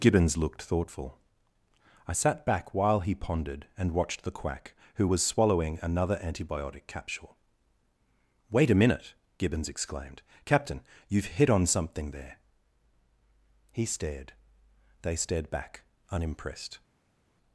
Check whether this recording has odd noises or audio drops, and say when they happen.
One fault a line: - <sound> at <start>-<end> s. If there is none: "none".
none